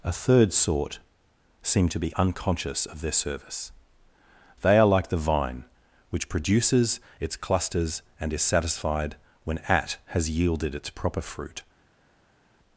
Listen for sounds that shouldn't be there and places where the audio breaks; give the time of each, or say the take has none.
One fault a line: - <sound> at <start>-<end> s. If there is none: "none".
none